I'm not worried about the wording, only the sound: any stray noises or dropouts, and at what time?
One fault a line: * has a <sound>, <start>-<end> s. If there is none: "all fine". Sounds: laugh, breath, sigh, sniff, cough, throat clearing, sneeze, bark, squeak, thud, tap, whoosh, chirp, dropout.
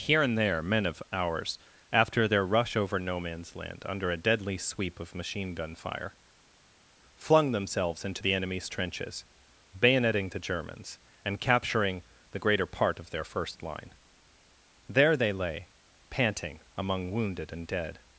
all fine